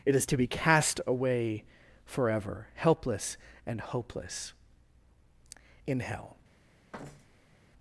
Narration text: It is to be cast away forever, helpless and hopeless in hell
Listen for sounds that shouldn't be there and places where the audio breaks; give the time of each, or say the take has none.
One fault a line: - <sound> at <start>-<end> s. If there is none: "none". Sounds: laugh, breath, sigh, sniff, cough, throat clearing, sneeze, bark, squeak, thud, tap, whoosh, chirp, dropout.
- thud at 6.9-7.6 s